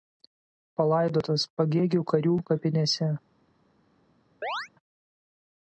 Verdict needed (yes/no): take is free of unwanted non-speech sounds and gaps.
no